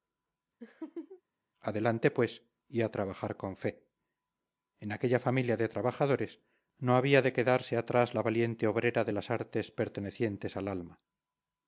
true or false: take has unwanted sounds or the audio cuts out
true